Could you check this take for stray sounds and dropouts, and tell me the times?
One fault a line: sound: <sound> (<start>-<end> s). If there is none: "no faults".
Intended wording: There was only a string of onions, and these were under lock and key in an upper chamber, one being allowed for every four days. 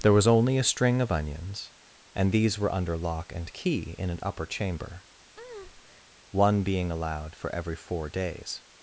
sound: breath (5.4-6.1 s)